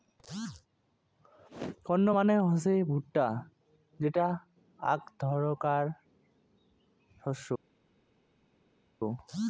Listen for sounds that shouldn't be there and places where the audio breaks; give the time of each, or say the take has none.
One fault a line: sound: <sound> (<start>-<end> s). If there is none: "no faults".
no faults